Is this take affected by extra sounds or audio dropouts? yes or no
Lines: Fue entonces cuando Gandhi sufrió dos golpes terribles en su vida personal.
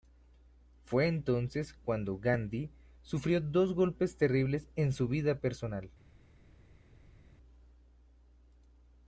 no